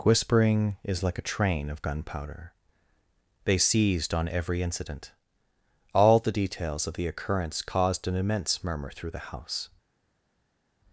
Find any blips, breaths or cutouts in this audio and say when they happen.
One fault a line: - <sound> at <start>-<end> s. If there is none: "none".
none